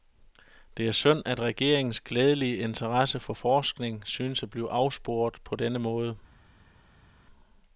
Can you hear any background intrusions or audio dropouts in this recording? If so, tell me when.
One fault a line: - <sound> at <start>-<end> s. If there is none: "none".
none